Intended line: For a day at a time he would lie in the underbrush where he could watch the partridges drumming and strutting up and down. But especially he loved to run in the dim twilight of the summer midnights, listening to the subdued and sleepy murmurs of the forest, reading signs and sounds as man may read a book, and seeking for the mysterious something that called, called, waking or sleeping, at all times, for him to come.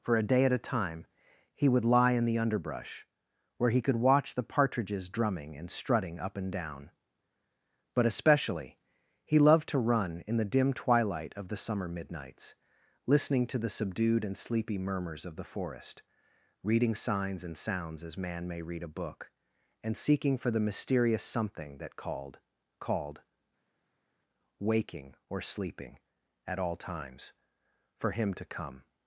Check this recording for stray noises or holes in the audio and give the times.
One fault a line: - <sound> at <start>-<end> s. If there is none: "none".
none